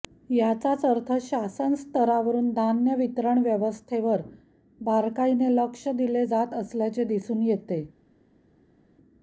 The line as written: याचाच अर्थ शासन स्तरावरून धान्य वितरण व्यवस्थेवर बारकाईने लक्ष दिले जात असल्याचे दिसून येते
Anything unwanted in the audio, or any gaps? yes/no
no